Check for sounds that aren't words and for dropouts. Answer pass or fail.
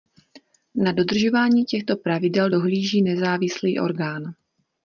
pass